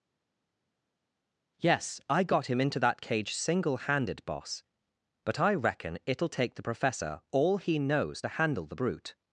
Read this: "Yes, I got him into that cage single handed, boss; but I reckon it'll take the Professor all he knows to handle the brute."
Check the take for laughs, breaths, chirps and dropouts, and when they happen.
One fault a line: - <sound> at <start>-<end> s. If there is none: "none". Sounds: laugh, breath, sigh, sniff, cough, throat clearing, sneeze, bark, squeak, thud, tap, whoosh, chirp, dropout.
none